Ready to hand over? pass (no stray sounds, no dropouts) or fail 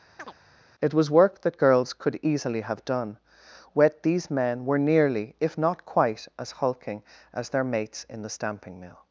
fail